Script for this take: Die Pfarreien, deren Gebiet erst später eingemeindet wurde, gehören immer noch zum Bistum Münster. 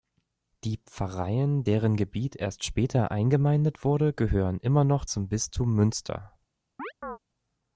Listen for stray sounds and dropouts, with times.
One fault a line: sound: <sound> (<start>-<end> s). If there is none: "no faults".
sound: chirp (6.8-7.2 s)